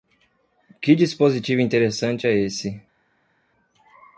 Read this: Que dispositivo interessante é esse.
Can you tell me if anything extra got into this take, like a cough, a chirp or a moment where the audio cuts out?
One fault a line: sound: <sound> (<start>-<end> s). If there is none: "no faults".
no faults